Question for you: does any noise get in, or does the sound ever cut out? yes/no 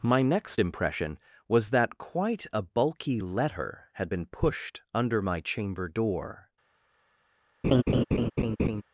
yes